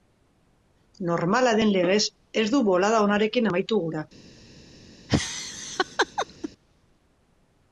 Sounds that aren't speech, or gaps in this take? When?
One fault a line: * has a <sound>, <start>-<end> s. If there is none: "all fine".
* has a laugh, 5.1-6.5 s